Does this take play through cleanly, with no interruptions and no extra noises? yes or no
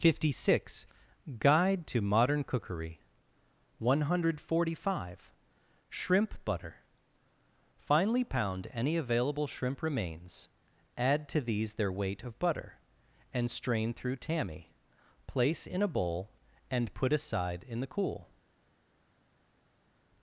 yes